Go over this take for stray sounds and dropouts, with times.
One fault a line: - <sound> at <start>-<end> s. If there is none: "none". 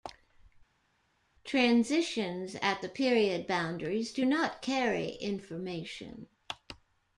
none